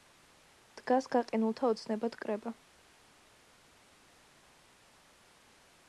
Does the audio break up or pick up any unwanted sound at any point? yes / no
no